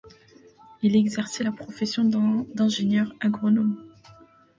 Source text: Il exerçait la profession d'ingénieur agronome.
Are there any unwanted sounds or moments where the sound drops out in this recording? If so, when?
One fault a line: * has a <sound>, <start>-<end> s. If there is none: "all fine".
all fine